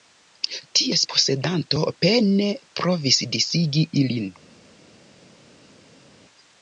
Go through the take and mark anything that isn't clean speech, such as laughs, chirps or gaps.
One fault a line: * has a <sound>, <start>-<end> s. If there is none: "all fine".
all fine